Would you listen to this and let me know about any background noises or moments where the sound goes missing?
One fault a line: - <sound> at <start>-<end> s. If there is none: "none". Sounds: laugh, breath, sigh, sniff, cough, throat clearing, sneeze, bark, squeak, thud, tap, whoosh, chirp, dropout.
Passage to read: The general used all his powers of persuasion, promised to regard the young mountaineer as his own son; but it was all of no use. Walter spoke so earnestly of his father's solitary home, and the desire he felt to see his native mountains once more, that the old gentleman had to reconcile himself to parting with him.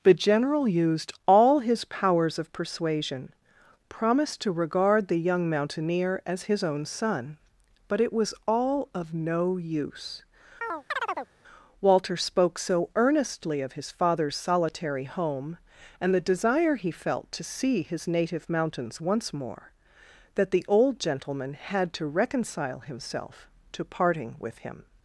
- chirp at 10.6-11.3 s